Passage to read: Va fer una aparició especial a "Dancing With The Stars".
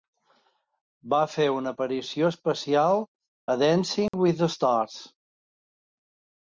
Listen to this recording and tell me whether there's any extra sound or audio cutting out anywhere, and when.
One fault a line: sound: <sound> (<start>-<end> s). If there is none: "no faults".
sound: dropout (4.1-4.1 s)